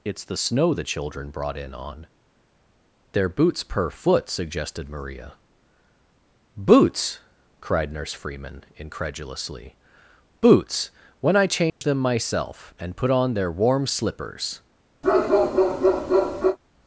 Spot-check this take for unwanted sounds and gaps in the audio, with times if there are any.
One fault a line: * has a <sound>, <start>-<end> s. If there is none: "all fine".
* has a dropout, 11.7-11.8 s
* has a bark, 15.0-16.6 s